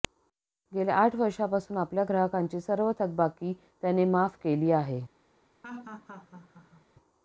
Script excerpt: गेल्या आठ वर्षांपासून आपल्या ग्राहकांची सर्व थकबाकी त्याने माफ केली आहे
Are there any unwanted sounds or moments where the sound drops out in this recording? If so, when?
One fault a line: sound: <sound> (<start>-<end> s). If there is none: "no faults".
sound: laugh (5.6-6.9 s)